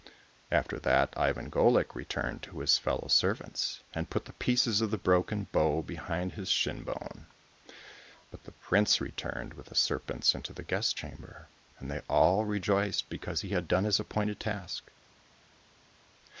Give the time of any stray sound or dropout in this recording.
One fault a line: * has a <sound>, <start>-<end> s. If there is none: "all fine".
all fine